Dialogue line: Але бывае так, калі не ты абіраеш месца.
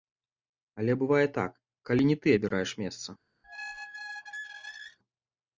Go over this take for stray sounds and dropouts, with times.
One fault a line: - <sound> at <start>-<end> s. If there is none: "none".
- squeak at 3.4-5.0 s